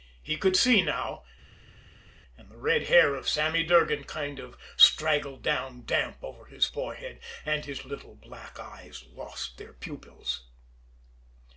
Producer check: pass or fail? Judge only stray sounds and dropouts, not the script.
pass